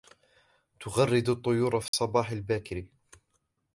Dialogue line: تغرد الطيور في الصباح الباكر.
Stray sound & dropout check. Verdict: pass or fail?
fail